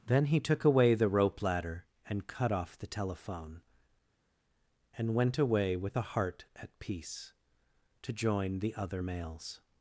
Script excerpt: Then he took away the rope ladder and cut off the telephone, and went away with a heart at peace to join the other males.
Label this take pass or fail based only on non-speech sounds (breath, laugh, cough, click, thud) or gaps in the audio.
pass